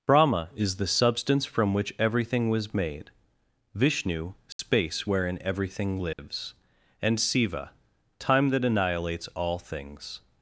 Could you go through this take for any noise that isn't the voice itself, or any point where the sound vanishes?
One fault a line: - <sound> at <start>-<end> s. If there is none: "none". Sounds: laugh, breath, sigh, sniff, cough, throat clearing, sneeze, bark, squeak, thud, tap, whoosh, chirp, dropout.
- dropout at 4.5-4.6 s
- dropout at 6.1-6.2 s